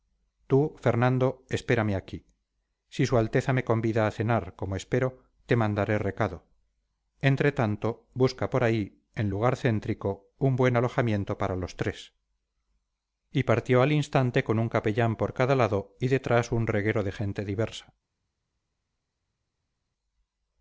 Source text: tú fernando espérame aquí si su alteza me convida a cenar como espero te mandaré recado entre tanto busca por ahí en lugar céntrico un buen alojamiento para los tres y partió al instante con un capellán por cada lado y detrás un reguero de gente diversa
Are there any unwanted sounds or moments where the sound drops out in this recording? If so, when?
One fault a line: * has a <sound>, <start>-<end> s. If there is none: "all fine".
all fine